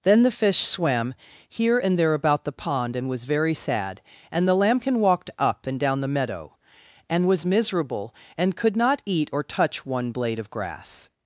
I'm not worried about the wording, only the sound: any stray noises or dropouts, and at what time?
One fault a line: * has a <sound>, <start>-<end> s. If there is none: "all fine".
all fine